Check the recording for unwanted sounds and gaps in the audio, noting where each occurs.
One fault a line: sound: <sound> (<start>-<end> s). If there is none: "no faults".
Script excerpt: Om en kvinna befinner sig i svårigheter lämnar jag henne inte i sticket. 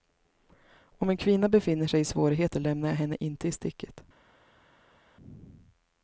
no faults